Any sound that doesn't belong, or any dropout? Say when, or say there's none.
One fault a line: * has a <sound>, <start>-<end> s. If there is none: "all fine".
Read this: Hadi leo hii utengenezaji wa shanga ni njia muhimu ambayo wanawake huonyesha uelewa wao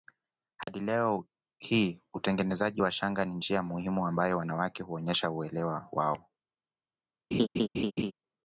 * has a dropout, 0.6-0.7 s
* has a laugh, 7.3-8.1 s